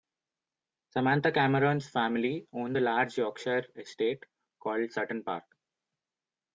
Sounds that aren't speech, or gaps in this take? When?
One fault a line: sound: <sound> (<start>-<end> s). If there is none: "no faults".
no faults